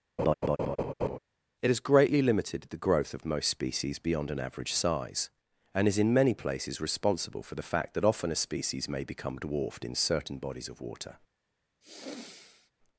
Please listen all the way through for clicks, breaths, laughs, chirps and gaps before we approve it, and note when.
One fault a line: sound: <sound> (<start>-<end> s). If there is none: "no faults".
sound: laugh (0.2-1.2 s)
sound: sigh (11.8-12.7 s)